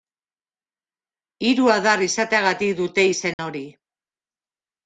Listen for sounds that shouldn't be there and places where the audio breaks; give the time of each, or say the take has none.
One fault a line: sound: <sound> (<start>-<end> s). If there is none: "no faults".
sound: dropout (3.3-3.4 s)